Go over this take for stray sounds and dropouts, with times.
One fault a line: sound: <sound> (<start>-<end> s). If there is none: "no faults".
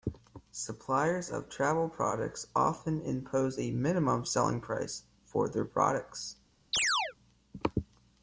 sound: chirp (6.7-7.1 s)